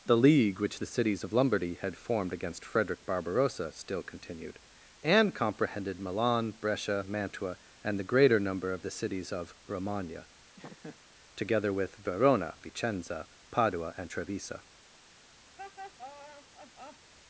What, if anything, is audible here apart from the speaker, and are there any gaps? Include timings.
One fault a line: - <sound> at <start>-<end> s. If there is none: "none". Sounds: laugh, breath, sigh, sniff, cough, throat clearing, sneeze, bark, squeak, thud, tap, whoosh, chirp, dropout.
- laugh at 10.6-11.0 s
- laugh at 15.6-17.1 s